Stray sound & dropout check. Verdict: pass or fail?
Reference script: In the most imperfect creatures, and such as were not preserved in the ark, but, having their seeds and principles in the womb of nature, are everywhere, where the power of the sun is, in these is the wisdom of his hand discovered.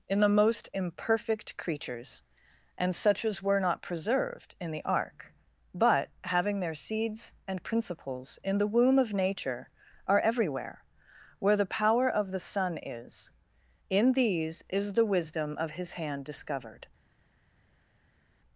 pass